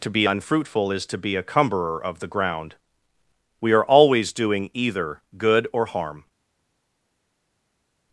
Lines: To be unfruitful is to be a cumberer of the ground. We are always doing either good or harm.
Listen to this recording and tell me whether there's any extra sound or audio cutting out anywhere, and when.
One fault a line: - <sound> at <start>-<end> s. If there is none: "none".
none